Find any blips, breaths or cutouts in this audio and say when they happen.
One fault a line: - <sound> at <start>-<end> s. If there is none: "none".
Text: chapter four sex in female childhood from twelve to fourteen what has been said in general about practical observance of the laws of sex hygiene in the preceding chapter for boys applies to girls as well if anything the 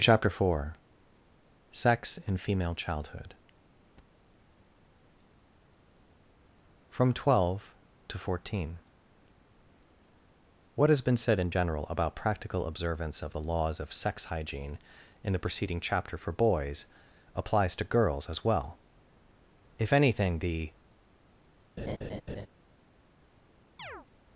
- laugh at 21.8-22.5 s
- chirp at 23.8-24.1 s